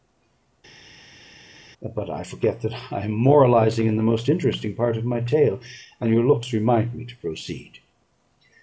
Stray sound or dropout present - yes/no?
no